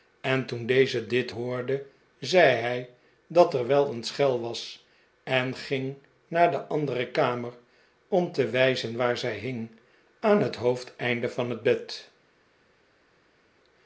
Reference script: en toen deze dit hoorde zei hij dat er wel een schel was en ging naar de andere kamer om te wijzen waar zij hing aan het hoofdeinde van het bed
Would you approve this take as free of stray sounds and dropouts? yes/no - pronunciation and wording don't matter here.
yes